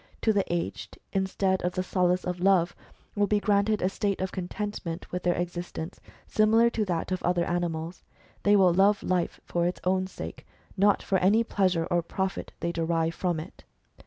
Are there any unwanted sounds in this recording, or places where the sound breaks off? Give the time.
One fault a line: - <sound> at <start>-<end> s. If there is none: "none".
none